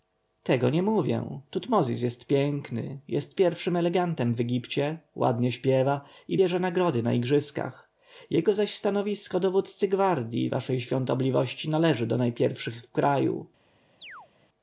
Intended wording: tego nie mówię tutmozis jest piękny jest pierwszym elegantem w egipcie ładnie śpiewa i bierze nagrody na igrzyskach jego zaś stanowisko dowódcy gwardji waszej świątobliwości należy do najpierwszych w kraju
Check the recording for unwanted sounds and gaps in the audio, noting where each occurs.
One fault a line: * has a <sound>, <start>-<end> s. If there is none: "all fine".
* has a chirp, 14.0-14.3 s